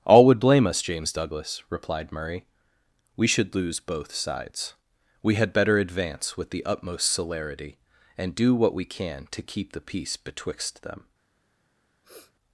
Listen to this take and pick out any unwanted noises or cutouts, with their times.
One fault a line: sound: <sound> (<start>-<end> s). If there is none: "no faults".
sound: sniff (12.0-12.3 s)